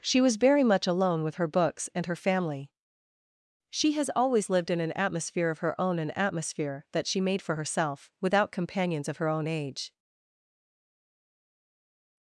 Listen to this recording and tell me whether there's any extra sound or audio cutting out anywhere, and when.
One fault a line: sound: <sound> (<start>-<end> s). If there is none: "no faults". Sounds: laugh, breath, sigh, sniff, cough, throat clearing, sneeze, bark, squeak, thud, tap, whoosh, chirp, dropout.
no faults